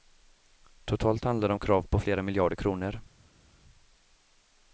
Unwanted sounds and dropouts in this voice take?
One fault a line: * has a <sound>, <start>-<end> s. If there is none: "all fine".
all fine